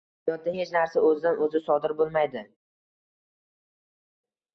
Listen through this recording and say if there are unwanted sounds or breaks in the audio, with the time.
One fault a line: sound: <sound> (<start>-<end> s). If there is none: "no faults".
no faults